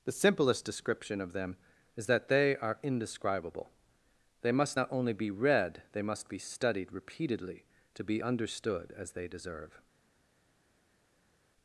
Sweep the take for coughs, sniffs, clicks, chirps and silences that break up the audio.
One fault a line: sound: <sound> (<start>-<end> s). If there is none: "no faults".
no faults